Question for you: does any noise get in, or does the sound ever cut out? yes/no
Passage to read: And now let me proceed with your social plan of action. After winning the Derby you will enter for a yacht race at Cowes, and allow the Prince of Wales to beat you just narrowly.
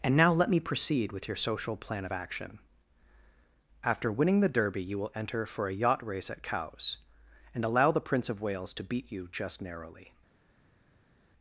no